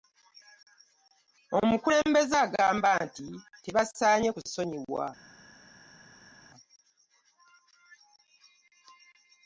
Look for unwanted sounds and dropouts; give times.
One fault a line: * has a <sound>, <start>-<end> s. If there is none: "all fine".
all fine